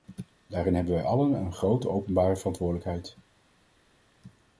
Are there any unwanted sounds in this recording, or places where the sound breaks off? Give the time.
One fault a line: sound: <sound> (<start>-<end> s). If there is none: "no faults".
no faults